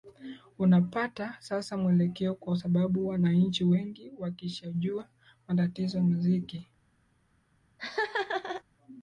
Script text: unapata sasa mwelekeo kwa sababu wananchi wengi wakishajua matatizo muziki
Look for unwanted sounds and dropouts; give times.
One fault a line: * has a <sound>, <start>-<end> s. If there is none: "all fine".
* has a laugh, 7.8-8.6 s